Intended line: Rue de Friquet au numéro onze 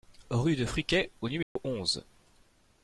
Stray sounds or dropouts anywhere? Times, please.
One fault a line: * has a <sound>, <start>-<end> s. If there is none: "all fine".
* has a dropout, 1.4-1.6 s